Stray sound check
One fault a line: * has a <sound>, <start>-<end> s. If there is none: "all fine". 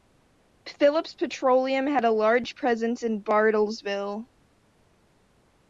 all fine